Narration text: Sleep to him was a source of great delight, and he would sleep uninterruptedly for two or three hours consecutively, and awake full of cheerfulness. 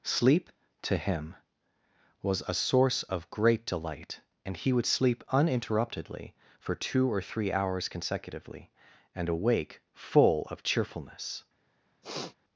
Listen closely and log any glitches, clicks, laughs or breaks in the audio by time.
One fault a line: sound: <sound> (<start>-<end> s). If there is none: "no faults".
sound: sniff (12.0-12.4 s)